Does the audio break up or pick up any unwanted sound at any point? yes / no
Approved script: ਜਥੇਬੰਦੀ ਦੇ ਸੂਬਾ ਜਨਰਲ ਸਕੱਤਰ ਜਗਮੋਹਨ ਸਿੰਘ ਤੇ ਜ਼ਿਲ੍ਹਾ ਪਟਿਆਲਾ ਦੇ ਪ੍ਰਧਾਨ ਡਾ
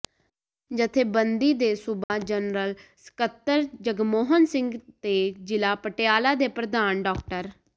yes